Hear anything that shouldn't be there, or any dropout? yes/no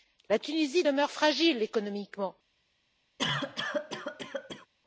yes